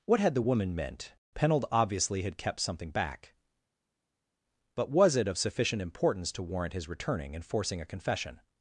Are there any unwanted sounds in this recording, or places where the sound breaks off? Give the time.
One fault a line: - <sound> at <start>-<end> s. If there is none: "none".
none